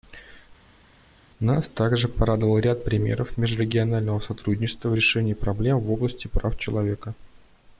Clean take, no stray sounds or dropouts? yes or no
yes